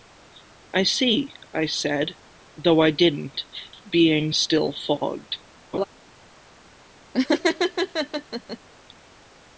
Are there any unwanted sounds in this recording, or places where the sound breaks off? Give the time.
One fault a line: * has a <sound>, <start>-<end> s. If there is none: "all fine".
* has a laugh, 5.7-5.8 s
* has a laugh, 7.1-8.6 s